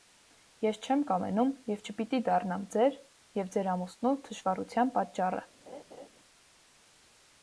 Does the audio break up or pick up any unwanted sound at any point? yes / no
yes